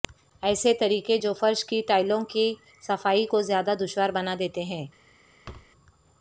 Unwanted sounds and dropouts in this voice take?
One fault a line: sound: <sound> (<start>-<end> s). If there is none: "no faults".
sound: thud (5.4-5.7 s)